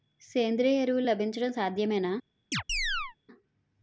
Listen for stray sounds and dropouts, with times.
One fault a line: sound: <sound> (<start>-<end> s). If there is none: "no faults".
sound: chirp (2.5-3.2 s)